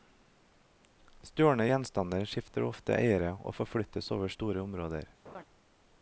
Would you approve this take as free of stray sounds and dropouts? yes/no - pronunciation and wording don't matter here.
no